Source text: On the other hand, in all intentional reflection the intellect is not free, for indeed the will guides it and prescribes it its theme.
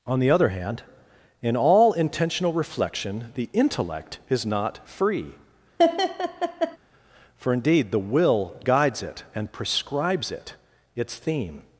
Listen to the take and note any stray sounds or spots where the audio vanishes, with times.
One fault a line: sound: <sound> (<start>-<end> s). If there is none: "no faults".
sound: laugh (5.8-6.8 s)